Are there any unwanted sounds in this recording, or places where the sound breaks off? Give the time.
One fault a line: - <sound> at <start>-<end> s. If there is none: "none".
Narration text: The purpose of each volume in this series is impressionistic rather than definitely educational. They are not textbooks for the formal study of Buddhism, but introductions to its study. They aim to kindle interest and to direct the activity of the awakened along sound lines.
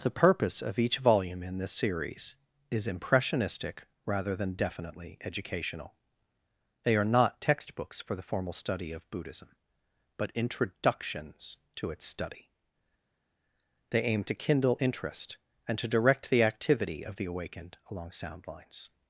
none